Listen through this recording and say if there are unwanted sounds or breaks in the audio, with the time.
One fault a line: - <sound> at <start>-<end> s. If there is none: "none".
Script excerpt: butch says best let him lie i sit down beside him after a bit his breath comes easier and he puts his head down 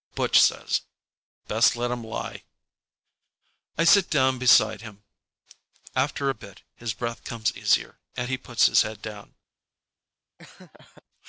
- laugh at 10.4-11.0 s